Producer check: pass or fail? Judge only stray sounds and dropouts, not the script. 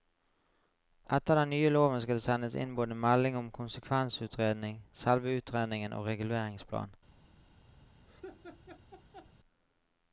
fail